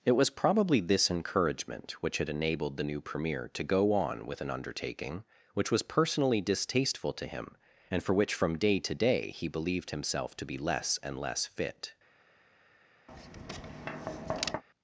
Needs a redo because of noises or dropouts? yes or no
yes